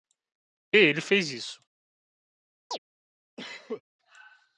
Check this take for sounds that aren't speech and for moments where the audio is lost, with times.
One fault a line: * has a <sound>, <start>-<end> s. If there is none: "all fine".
* has a chirp, 2.7-2.8 s
* has a cough, 3.4-3.8 s